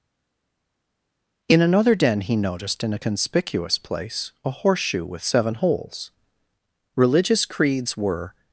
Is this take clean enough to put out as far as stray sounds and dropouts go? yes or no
yes